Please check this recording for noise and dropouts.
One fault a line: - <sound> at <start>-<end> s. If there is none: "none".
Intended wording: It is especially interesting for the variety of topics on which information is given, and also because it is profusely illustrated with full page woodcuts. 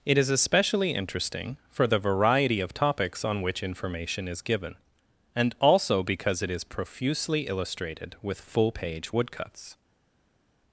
none